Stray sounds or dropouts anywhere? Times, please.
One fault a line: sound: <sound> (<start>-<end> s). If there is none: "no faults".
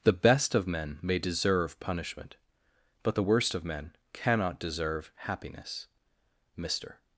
no faults